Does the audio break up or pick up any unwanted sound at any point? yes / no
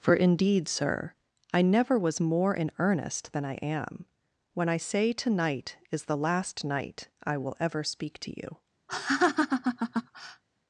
yes